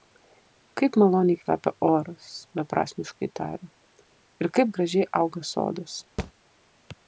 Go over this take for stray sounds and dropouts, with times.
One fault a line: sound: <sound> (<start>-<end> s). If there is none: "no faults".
sound: thud (6.2-6.3 s)